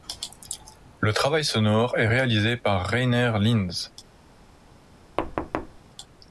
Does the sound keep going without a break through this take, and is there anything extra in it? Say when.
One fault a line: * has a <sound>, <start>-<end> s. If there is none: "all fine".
* has a thud, 5.2-5.8 s